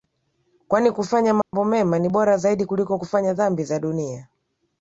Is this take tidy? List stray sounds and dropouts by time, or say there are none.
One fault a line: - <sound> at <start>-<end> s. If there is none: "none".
- dropout at 1.4-1.5 s